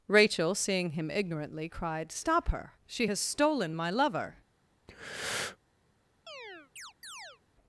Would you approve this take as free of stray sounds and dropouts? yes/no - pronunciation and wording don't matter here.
no